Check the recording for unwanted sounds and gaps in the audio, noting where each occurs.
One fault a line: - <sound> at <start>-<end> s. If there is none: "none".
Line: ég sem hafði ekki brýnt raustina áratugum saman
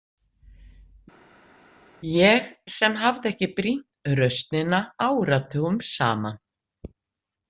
none